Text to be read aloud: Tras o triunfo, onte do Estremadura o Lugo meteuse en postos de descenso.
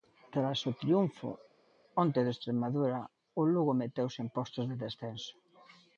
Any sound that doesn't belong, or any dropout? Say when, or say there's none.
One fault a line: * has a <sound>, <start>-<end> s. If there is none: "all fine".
all fine